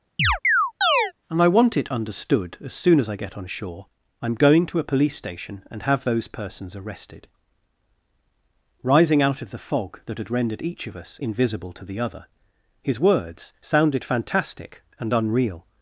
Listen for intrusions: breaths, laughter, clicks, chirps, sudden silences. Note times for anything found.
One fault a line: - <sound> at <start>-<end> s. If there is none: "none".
- chirp at 0.2-1.1 s